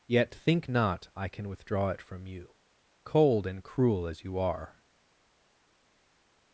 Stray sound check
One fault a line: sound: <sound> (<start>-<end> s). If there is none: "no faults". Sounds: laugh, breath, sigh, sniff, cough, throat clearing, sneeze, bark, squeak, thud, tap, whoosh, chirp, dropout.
no faults